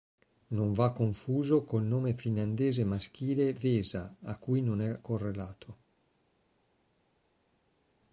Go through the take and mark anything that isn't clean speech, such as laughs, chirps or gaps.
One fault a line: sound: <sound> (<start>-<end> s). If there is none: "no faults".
no faults